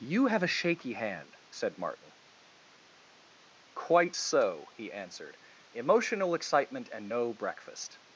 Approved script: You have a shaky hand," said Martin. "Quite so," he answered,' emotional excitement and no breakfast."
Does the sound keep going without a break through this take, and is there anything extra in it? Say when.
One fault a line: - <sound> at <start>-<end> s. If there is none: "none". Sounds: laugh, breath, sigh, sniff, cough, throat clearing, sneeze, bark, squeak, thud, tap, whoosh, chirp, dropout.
none